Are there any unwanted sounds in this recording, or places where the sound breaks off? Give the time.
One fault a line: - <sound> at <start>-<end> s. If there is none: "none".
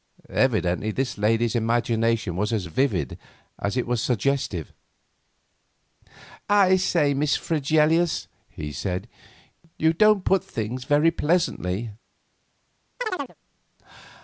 - chirp at 13.0-13.4 s